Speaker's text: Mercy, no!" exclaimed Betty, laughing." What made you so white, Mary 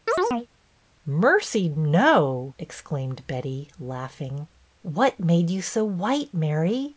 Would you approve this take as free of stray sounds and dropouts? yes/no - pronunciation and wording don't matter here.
no